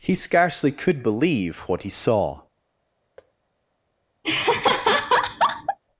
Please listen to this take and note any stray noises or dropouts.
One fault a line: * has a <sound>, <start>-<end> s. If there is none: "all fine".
* has a thud, 3.2-3.3 s
* has a laugh, 4.2-5.8 s